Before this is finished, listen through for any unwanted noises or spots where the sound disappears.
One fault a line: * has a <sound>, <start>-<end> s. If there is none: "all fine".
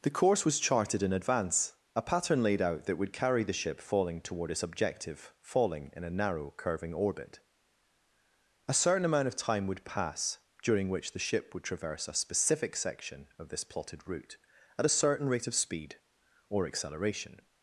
all fine